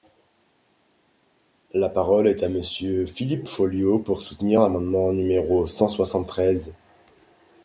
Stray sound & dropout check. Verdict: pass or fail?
pass